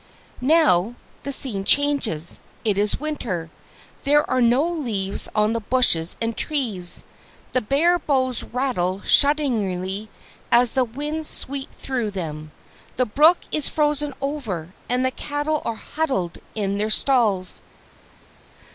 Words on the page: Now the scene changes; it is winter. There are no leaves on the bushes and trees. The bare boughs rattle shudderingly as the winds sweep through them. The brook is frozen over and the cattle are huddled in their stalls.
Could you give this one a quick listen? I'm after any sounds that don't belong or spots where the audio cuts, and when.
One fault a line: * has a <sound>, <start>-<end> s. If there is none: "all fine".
all fine